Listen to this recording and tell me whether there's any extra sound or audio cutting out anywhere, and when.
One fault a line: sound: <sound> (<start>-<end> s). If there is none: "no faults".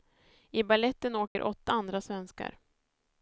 sound: dropout (1.3-1.4 s)